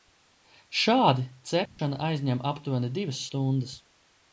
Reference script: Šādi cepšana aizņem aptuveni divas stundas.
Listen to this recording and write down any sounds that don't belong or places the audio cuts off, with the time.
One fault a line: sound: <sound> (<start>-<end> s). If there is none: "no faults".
sound: dropout (1.7-1.8 s)